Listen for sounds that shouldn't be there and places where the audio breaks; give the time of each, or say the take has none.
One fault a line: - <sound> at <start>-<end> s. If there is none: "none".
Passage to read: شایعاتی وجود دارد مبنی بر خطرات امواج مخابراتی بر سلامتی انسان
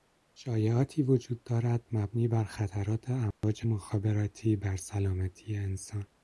- dropout at 3.3-3.4 s